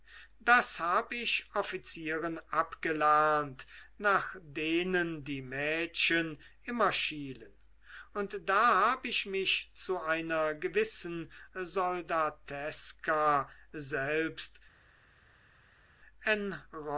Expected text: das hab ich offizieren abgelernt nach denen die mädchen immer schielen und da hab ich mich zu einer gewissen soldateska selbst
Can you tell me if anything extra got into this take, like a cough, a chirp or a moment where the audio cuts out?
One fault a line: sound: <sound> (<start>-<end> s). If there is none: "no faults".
no faults